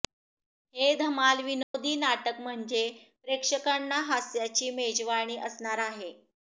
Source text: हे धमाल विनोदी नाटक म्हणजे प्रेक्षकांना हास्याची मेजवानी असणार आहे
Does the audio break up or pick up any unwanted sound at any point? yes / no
yes